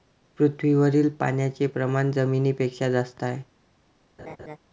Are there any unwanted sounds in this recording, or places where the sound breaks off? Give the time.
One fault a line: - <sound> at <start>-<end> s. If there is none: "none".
- laugh at 4.2-4.6 s